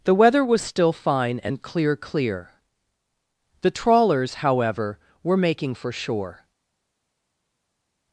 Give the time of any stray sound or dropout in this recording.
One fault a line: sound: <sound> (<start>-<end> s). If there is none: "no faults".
no faults